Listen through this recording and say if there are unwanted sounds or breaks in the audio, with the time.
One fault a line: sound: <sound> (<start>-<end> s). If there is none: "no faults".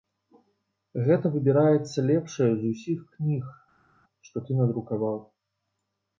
no faults